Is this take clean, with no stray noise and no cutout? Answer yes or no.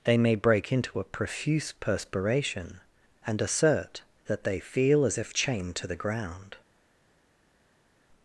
yes